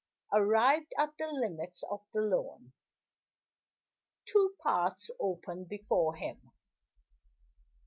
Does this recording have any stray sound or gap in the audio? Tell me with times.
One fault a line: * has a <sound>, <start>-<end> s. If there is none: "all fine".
all fine